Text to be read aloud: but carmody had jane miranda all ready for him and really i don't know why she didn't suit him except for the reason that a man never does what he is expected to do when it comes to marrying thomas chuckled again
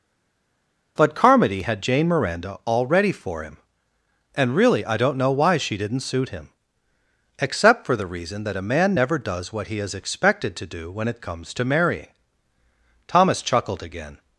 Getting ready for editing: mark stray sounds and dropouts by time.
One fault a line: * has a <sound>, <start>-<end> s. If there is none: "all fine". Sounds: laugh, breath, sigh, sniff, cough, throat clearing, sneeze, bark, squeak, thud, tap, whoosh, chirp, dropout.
all fine